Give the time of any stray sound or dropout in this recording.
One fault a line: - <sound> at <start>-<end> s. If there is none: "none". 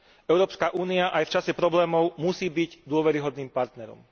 none